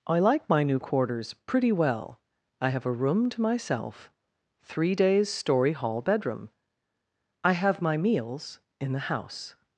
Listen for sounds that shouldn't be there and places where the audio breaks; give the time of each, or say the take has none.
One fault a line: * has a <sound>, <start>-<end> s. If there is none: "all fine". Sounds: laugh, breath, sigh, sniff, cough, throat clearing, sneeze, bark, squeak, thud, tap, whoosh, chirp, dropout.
all fine